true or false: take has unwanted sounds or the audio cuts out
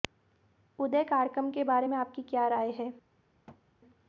true